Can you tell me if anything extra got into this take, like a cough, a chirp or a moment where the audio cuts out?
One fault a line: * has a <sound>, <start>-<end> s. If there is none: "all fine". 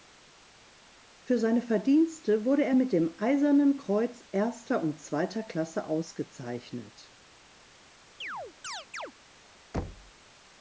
* has a chirp, 8.2-9.1 s
* has a thud, 9.7-10.1 s